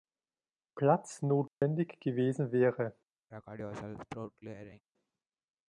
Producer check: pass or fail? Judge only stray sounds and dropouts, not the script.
fail